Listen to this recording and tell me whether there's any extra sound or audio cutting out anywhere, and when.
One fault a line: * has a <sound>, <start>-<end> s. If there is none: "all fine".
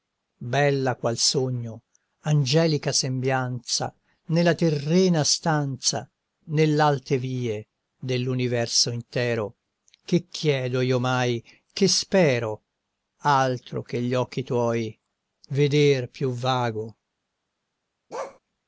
* has a bark, 18.1-18.4 s